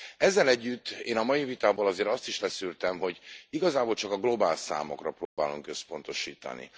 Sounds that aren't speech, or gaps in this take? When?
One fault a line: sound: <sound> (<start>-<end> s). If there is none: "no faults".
sound: dropout (5.3-5.4 s)